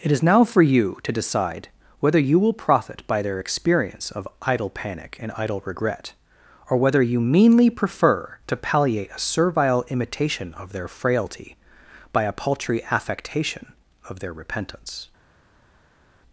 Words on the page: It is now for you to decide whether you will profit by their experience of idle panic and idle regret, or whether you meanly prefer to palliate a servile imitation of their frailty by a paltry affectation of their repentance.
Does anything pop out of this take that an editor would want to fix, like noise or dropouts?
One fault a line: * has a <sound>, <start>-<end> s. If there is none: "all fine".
all fine